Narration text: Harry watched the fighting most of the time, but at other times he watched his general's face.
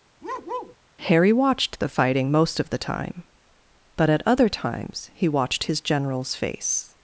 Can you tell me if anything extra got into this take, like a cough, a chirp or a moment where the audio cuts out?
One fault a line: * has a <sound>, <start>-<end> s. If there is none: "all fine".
* has a bark, 0.2-0.8 s